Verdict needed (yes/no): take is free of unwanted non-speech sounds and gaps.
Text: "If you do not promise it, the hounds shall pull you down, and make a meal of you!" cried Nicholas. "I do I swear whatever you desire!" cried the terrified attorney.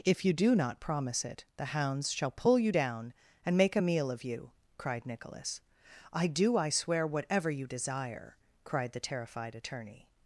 yes